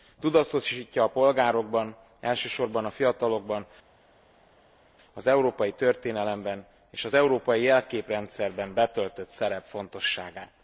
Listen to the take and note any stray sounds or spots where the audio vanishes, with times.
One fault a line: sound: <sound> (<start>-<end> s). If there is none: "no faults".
no faults